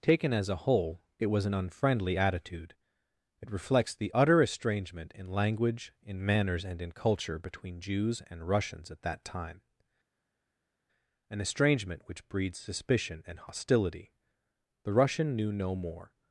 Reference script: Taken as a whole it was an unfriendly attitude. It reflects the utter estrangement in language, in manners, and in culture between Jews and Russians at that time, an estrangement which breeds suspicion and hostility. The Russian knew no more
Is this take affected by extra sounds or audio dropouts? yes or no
no